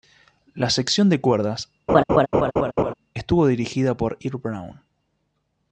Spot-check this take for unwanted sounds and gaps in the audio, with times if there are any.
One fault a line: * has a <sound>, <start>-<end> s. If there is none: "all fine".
* has a laugh, 1.9-2.9 s